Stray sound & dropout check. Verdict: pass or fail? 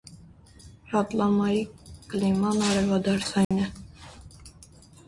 fail